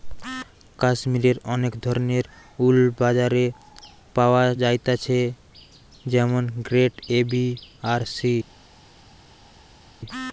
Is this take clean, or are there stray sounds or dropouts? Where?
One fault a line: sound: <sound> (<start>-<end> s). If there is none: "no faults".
no faults